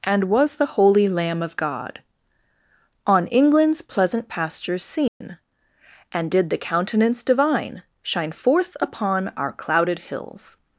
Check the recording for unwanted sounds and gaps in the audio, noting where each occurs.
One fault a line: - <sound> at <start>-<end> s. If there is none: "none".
- dropout at 5.1-5.2 s